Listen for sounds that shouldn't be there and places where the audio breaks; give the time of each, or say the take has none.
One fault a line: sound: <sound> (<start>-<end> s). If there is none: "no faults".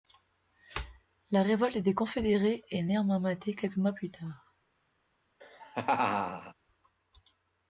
sound: laugh (5.4-6.5 s)